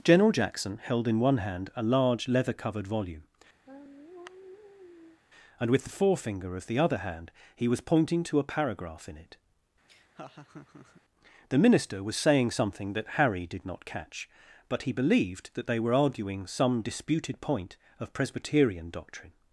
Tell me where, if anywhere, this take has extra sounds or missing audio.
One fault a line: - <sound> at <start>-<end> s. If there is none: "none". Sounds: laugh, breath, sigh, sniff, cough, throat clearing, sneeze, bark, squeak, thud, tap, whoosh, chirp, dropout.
- sigh at 3.7-5.2 s
- laugh at 9.9-11.0 s